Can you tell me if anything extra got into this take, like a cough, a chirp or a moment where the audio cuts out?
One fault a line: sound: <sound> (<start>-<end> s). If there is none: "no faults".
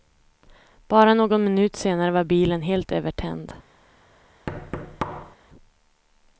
sound: thud (4.5-5.4 s)